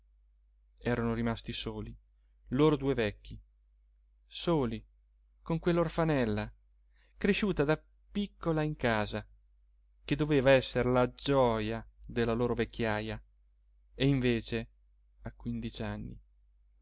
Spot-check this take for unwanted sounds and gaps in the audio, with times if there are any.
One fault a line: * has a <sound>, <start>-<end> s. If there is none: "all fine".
all fine